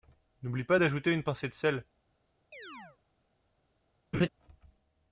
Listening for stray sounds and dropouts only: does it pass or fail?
fail